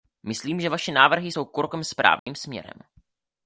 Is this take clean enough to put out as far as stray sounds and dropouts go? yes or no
no